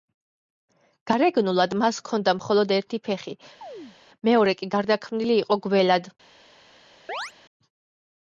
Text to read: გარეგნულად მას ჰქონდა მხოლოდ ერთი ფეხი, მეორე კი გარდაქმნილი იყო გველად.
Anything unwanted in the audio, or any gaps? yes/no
yes